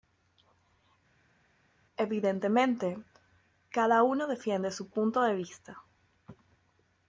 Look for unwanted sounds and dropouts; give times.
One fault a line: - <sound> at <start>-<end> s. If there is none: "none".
none